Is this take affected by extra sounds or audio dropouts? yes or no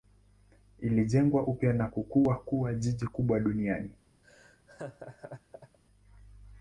yes